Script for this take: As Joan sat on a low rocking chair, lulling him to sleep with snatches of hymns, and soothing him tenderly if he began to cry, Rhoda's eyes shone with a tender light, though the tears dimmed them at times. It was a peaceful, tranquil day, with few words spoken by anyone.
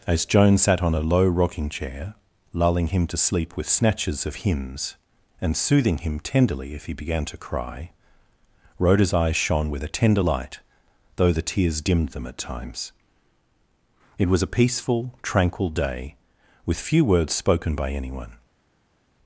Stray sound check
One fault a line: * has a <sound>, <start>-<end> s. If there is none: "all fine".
all fine